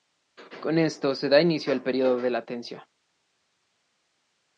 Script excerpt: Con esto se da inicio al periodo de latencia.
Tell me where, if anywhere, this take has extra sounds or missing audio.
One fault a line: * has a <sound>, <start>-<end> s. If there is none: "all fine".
all fine